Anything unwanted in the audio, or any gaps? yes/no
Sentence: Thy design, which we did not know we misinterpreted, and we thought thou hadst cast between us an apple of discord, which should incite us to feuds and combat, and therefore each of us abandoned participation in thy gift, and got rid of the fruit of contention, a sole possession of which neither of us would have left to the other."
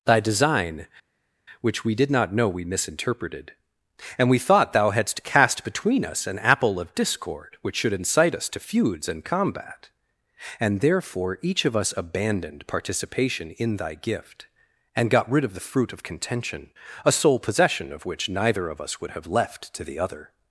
no